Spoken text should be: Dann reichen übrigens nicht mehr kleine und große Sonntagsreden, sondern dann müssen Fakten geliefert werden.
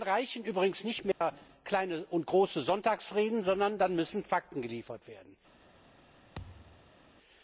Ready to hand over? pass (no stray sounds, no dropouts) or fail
fail